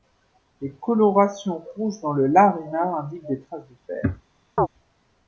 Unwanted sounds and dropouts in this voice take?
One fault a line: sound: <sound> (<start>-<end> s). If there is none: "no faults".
sound: chirp (4.6-4.7 s)